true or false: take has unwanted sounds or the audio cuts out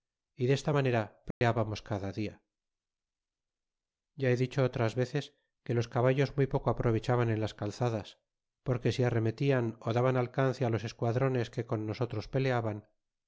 true